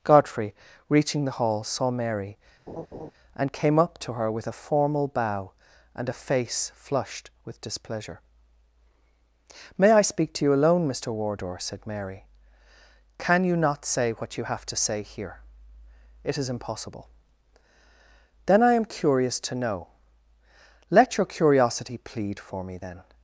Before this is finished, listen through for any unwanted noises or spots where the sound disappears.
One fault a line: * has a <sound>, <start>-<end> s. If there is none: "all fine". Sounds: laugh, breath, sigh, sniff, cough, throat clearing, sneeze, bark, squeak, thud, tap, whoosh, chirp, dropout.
* has a laugh, 2.7-3.1 s